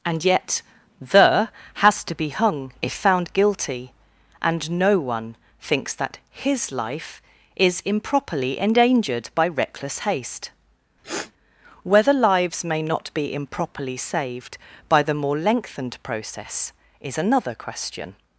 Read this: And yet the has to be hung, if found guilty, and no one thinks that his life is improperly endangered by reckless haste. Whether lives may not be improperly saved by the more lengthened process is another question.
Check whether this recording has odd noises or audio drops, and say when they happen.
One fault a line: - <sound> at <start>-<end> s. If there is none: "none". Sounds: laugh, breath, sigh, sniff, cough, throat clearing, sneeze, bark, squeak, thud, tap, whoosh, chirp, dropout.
- sniff at 11.0-11.3 s